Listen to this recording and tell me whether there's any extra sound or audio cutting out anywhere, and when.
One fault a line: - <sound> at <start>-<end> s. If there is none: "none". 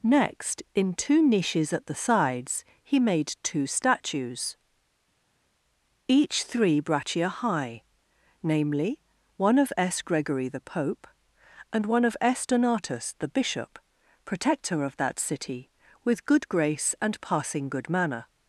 none